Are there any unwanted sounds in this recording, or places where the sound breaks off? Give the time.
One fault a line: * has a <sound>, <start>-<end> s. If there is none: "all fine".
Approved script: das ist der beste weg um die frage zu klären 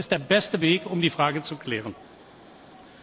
all fine